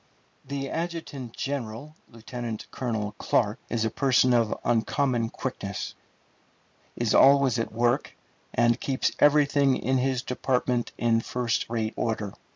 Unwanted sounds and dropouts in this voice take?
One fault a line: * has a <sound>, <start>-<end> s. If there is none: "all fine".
all fine